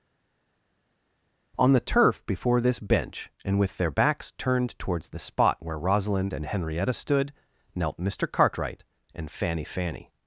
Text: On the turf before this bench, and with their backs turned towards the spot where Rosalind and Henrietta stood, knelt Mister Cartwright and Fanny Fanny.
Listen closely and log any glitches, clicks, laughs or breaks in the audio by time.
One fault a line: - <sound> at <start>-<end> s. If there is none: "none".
none